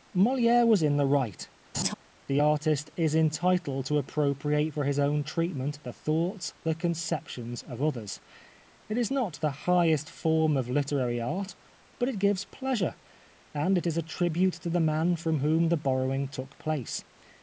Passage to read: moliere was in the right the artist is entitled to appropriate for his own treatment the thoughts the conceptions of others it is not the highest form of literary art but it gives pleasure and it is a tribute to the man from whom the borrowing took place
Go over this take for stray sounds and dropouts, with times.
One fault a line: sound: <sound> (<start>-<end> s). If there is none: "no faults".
sound: laugh (1.7-1.9 s)